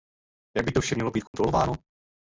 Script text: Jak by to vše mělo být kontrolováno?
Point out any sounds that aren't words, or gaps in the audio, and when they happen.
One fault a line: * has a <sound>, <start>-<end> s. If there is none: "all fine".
* has a dropout, 1.3-1.3 s